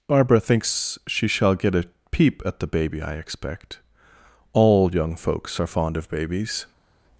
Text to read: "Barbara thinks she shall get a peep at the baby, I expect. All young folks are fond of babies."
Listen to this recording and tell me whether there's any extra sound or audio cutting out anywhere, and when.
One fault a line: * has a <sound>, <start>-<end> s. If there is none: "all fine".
all fine